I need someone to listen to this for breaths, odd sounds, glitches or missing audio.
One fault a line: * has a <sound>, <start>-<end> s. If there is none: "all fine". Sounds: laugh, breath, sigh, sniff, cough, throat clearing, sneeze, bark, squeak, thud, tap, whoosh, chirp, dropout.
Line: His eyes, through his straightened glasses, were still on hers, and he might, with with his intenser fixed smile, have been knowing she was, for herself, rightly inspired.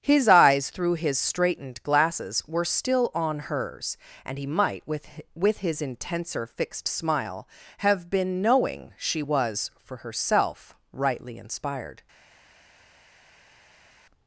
all fine